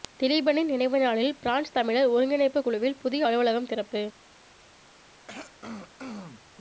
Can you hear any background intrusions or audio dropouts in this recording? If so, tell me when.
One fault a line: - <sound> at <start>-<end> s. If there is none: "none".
- throat clearing at 5.3-6.4 s